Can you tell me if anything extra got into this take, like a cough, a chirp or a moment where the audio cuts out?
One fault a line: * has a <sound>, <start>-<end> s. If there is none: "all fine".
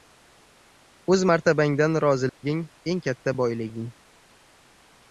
* has a dropout, 2.3-2.4 s